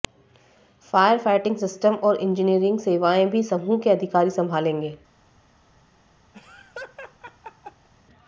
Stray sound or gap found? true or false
true